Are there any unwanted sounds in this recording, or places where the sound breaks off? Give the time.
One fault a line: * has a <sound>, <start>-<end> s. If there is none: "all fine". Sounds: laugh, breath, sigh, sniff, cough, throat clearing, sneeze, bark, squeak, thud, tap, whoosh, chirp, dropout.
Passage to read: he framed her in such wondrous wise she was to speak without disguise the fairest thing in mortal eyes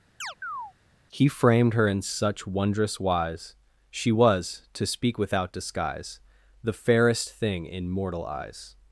* has a chirp, 0.2-0.7 s